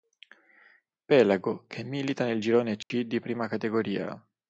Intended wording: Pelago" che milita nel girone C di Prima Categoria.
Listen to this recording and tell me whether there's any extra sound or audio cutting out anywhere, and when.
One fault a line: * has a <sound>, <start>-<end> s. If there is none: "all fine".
* has a dropout, 2.8-2.9 s